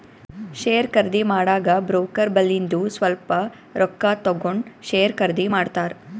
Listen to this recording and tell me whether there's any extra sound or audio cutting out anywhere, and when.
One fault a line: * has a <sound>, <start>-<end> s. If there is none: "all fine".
all fine